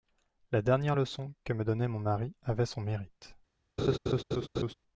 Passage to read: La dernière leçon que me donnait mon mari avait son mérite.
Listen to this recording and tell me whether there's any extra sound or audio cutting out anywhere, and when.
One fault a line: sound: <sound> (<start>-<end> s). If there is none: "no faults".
sound: laugh (3.8-4.7 s)